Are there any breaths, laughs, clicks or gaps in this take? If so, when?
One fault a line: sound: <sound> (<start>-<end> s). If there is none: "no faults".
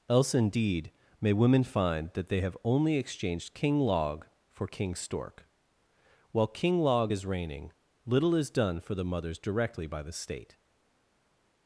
no faults